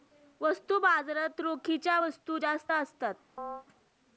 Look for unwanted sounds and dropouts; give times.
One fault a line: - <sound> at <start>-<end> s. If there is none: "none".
- chirp at 3.4-3.6 s